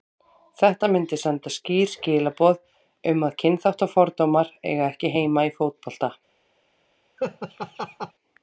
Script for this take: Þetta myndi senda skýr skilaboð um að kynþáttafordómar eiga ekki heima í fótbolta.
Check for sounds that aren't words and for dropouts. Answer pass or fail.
fail